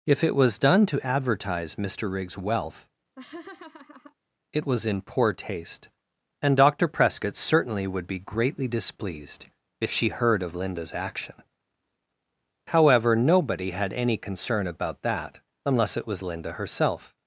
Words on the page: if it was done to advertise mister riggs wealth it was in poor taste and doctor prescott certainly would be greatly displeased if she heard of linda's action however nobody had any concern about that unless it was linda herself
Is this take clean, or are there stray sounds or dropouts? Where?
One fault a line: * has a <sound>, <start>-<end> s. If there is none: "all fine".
* has a laugh, 3.2-4.1 s